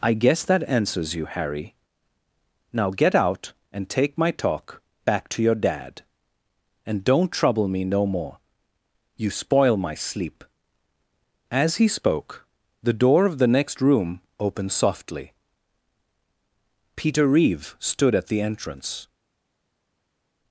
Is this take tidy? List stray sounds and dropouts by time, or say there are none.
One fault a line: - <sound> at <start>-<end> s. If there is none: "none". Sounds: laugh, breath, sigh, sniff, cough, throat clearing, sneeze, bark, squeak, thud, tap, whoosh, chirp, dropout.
none